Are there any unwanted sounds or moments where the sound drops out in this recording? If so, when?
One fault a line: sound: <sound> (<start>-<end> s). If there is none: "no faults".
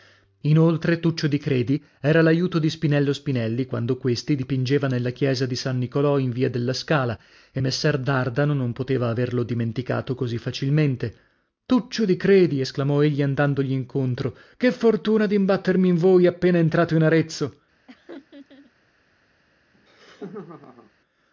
sound: laugh (17.9-18.7 s)
sound: laugh (19.7-20.9 s)